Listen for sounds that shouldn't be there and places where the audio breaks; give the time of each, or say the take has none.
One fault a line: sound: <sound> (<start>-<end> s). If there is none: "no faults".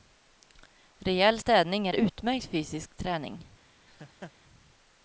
sound: laugh (3.9-4.3 s)